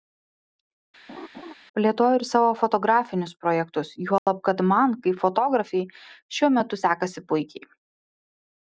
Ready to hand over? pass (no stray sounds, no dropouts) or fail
fail